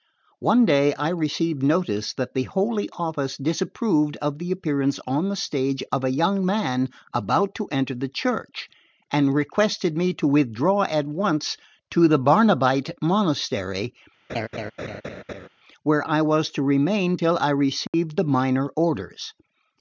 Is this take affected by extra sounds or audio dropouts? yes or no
yes